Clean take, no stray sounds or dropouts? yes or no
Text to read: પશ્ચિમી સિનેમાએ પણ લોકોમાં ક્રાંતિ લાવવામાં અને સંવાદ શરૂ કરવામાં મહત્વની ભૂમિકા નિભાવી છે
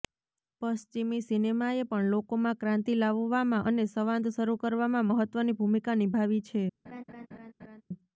no